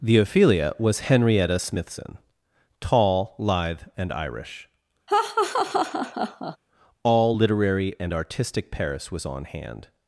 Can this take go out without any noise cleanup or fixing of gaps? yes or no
no